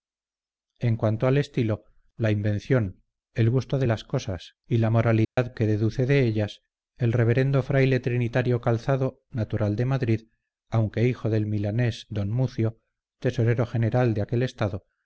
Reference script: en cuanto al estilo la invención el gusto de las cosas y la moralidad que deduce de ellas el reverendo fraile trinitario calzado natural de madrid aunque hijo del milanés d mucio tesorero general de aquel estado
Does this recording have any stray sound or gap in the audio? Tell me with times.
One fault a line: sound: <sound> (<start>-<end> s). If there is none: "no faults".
sound: dropout (5.2-5.4 s)